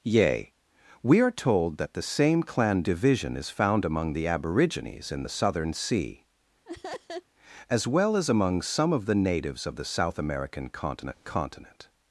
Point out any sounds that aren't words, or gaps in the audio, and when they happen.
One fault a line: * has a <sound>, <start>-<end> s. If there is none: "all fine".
* has a laugh, 6.6-7.2 s